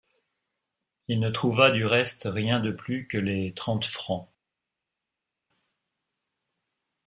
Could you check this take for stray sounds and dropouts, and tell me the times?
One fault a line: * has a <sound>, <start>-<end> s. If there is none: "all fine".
all fine